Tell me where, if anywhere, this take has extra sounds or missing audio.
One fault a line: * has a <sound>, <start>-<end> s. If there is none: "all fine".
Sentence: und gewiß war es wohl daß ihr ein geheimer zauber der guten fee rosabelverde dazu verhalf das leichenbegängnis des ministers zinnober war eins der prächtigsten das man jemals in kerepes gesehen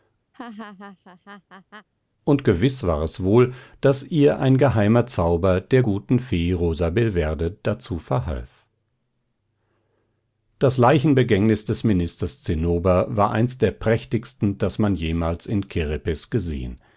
* has a laugh, 0.3-1.9 s